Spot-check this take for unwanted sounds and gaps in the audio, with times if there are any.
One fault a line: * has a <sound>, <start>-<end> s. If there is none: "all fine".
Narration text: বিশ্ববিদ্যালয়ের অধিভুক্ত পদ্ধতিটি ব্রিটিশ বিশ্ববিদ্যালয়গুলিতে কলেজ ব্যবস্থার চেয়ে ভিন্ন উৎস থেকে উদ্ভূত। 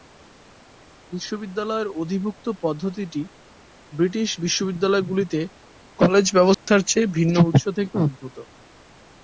* has a dropout, 6.5-6.7 s